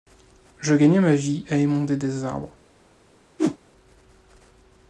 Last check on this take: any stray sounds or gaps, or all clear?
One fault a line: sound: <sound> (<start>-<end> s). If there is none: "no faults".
sound: whoosh (3.4-3.6 s)